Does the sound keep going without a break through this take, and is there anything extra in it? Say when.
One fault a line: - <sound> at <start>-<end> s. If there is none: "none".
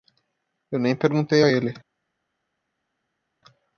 none